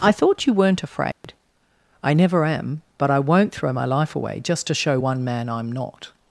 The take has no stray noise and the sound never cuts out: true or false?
false